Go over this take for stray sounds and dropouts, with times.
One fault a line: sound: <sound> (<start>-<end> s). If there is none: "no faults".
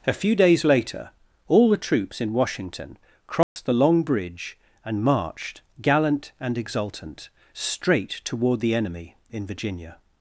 sound: dropout (3.4-3.6 s)